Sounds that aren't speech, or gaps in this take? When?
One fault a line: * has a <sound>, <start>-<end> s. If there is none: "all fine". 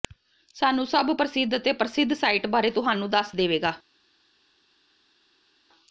all fine